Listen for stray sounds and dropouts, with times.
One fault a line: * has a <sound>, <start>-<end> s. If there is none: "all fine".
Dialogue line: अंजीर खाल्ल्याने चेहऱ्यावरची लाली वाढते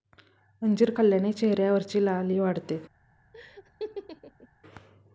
* has a laugh, 3.3-4.5 s